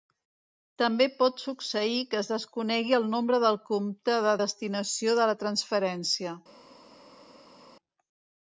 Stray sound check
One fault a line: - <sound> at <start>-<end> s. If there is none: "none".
none